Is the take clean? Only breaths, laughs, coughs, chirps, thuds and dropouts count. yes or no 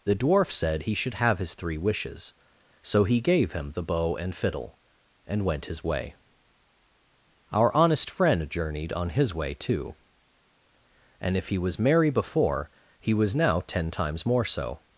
yes